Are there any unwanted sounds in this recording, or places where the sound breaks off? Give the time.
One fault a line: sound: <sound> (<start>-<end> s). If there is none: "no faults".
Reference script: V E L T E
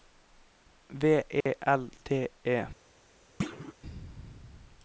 sound: dropout (1.4-1.5 s)
sound: thud (3.4-3.7 s)